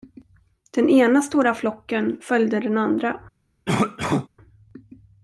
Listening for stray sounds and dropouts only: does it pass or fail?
fail